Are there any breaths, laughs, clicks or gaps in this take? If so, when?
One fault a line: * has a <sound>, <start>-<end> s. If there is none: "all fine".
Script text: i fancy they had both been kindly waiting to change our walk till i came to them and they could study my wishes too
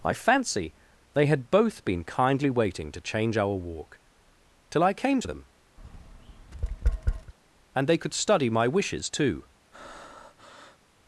* has a tap, 5.8-7.3 s
* has a breath, 9.7-10.8 s